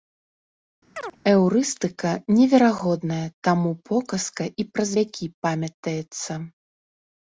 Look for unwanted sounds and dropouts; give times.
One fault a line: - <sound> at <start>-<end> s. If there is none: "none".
- chirp at 0.9-1.2 s